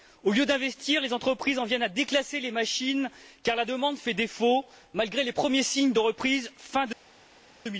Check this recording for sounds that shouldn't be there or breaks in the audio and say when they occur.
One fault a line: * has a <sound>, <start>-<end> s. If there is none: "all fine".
all fine